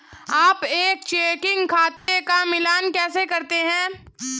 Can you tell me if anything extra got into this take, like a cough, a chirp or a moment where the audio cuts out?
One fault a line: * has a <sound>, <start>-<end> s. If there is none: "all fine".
* has a dropout, 2.0-2.1 s